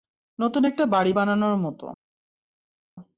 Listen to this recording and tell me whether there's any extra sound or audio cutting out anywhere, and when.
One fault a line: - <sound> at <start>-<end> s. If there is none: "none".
none